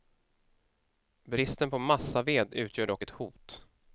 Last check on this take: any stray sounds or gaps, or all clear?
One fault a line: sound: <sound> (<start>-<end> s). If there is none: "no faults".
no faults